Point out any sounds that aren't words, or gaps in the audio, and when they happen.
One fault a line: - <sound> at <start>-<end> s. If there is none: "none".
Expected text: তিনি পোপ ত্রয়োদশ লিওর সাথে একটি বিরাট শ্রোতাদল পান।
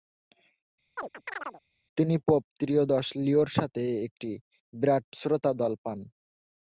- chirp at 1.0-1.6 s